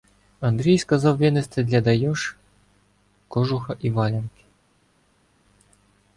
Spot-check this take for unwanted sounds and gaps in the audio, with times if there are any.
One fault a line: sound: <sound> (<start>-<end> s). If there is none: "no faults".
no faults